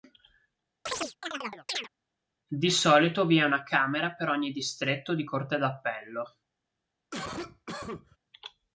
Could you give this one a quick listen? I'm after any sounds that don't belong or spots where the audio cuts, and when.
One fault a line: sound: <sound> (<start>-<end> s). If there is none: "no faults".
sound: chirp (0.9-1.9 s)
sound: cough (7.1-8.2 s)